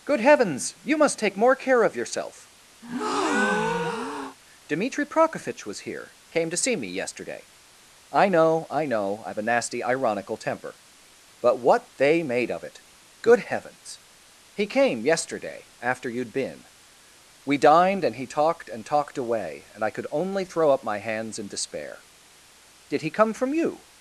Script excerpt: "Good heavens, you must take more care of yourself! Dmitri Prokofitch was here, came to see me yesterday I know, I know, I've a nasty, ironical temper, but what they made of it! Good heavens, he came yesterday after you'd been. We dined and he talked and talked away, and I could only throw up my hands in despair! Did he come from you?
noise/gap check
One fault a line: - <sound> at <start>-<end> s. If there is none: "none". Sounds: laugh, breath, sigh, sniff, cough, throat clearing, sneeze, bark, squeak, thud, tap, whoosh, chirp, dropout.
- breath at 2.8-4.4 s